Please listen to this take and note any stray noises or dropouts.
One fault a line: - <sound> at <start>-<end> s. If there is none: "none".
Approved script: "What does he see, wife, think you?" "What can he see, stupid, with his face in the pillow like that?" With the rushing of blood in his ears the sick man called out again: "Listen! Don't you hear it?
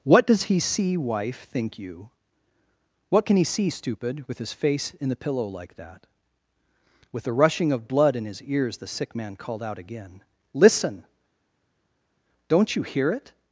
none